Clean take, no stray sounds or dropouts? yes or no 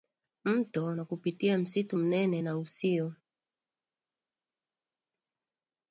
yes